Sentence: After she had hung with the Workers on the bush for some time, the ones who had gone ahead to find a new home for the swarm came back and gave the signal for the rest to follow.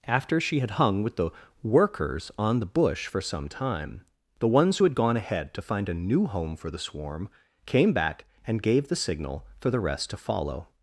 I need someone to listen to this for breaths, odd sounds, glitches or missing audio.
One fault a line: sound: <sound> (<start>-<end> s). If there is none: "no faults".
no faults